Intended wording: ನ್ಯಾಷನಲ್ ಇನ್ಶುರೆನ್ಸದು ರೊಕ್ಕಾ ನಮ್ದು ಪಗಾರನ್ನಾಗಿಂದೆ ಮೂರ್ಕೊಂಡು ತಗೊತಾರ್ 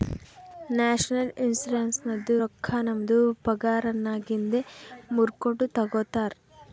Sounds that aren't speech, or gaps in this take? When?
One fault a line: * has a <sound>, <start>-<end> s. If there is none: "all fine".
all fine